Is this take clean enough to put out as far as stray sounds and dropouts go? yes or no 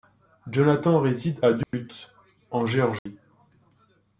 no